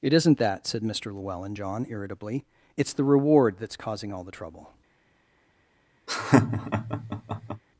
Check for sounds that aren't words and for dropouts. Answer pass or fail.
fail